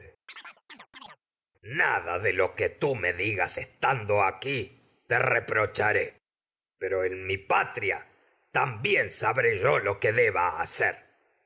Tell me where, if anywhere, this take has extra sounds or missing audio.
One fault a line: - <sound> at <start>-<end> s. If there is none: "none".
- chirp at 0.3-1.2 s